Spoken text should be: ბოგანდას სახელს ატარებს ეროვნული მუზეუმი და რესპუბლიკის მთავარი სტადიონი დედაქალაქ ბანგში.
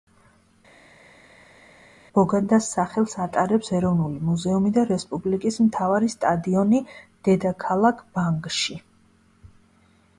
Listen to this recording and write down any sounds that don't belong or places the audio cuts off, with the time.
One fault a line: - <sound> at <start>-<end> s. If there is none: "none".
none